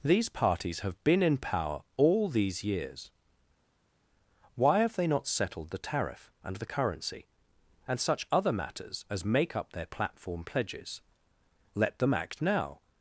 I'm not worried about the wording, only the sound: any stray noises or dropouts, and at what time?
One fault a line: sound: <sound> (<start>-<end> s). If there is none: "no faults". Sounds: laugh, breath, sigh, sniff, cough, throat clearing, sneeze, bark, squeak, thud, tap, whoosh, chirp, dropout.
no faults